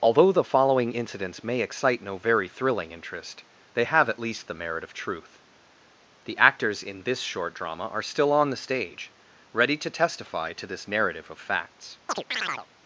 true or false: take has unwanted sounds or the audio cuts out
true